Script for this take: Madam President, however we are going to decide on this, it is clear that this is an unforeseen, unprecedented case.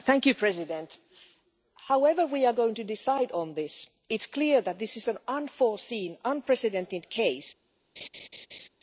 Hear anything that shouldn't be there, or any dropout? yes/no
yes